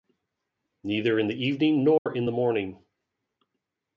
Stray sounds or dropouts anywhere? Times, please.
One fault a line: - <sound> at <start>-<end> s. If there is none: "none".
- dropout at 2.0-2.1 s